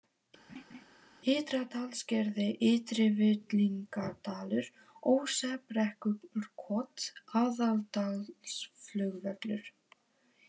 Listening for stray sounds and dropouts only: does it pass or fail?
fail